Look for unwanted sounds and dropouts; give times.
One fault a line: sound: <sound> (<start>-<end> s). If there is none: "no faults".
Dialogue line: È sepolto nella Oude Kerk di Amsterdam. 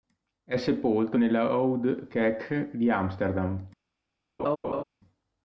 sound: laugh (4.4-4.8 s)